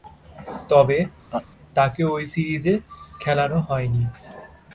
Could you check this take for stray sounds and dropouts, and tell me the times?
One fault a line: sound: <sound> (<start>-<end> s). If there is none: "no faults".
sound: laugh (1.3-1.5 s)